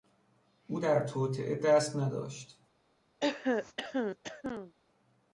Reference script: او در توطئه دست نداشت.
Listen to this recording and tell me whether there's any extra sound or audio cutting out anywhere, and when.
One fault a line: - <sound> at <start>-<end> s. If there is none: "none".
- throat clearing at 3.2-4.7 s